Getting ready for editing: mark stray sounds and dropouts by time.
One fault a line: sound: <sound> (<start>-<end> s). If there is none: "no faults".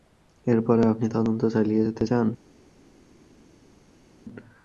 no faults